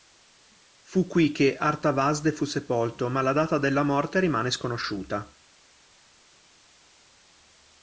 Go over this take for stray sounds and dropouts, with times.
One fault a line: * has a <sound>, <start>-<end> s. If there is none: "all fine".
all fine